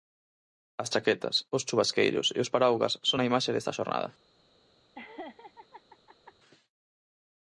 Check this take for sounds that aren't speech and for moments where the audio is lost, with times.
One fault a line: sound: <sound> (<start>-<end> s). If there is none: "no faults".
sound: laugh (4.9-6.3 s)